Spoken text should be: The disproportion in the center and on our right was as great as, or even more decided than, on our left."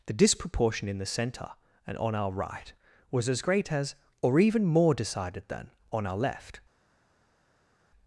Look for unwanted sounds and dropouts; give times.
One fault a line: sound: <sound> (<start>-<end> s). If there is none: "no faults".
no faults